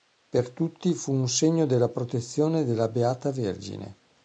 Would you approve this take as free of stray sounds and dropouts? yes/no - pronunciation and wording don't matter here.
yes